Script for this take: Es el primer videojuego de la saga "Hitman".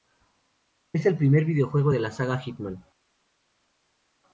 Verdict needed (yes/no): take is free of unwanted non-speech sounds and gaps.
yes